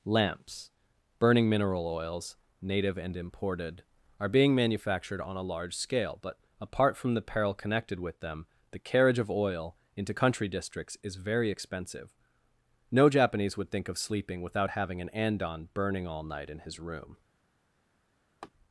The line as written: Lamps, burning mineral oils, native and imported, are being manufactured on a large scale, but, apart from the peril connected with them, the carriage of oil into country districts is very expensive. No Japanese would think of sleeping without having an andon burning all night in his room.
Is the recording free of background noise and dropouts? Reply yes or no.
no